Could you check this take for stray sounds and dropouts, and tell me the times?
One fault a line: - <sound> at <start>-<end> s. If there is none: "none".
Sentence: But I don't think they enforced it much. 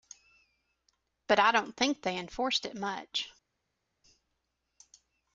none